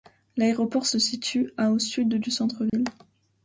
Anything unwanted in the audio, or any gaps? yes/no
yes